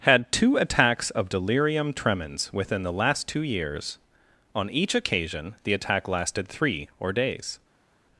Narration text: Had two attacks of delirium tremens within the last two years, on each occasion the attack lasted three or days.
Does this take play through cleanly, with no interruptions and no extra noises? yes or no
yes